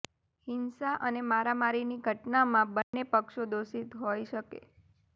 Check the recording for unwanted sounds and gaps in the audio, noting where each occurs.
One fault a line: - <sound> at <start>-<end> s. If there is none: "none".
- dropout at 2.8-2.9 s